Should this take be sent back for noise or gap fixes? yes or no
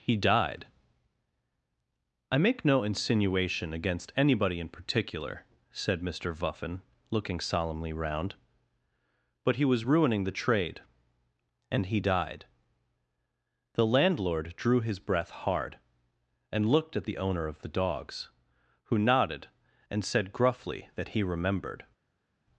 no